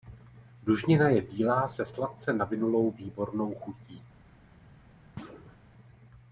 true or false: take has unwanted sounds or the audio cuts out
true